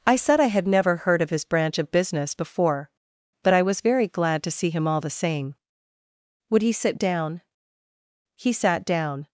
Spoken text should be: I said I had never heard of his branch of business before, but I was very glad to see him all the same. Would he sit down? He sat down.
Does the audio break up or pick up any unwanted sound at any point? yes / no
no